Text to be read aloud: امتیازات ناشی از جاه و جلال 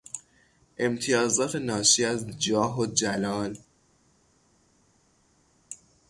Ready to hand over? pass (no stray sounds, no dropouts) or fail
pass